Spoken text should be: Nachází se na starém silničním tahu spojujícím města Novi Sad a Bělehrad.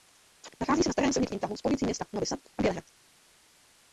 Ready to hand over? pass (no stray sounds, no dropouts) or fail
pass